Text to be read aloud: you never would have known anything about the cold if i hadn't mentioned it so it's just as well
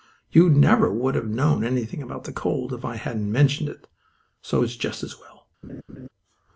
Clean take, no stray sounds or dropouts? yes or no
no